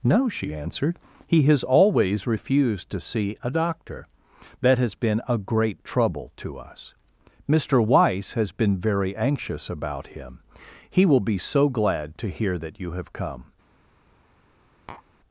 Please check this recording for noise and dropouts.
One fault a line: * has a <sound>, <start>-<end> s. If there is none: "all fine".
* has a tap, 14.9-15.0 s